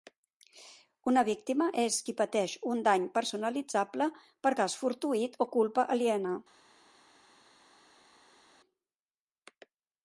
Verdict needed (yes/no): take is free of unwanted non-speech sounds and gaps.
yes